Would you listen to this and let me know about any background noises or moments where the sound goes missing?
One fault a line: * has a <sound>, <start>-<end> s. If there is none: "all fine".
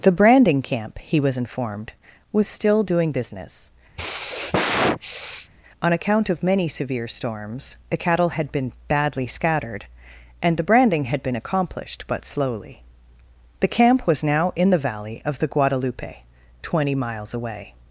* has a sigh, 3.9-5.5 s